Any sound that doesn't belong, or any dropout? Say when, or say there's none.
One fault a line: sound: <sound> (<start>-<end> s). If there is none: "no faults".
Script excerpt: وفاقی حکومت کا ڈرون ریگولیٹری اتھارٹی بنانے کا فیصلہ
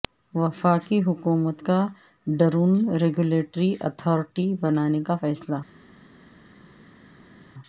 no faults